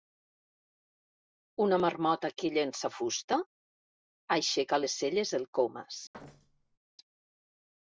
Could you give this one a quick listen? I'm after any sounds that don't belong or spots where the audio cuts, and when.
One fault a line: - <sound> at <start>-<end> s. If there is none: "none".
- thud at 6.1-6.8 s